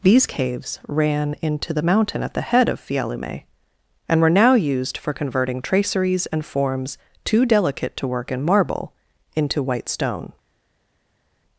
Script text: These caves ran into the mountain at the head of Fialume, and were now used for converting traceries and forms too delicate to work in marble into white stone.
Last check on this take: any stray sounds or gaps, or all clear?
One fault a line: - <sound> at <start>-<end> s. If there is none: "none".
none